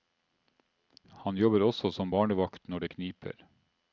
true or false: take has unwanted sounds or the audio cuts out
false